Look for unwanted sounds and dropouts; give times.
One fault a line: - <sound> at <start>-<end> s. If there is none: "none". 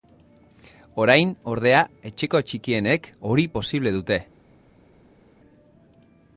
none